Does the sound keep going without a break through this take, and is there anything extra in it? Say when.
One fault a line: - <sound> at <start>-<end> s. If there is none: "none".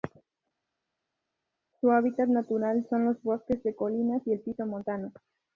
none